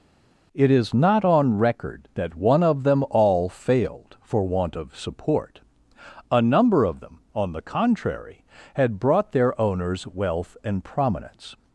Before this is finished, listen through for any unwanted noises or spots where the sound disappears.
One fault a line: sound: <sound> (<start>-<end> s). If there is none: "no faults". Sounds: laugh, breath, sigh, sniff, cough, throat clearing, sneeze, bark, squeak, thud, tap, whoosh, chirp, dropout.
no faults